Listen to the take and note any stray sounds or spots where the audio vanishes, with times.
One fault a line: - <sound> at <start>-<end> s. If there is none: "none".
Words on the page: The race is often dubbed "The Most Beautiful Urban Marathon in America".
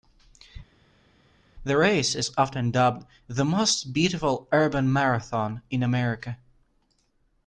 none